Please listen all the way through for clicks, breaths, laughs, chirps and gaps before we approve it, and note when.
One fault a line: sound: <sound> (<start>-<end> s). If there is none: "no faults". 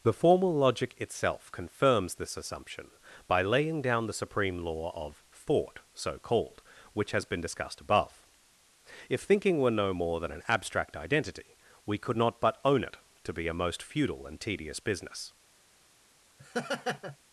sound: laugh (16.4-17.2 s)